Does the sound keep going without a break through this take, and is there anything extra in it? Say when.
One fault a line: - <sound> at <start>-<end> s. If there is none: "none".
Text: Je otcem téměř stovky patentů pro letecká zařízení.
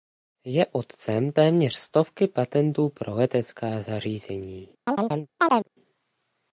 - chirp at 4.9-5.7 s